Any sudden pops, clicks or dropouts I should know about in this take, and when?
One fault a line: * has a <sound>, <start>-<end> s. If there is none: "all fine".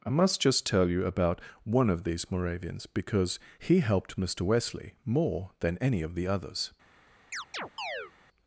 * has a chirp, 7.3-8.1 s